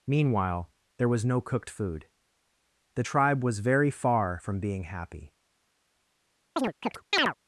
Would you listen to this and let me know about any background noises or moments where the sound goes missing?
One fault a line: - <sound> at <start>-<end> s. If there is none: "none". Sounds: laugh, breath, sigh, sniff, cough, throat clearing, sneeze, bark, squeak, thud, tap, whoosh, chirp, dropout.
- chirp at 6.6-7.3 s